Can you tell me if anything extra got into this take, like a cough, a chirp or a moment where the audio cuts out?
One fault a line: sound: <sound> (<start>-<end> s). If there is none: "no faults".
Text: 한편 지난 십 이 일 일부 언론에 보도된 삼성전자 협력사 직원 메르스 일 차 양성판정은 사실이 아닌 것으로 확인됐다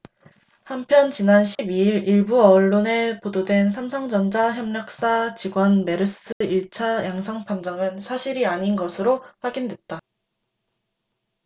sound: dropout (1.5-1.6 s)
sound: dropout (6.3-6.4 s)